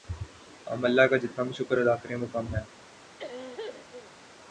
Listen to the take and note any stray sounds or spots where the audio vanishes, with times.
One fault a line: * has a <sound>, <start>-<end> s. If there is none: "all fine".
* has a cough, 3.2-4.1 s